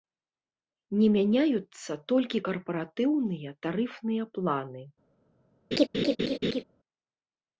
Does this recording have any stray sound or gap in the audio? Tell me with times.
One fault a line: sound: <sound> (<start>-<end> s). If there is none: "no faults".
sound: laugh (5.7-6.6 s)